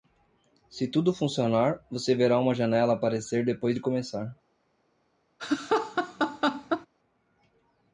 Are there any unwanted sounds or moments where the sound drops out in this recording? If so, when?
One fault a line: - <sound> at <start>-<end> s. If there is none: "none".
- laugh at 5.4-6.9 s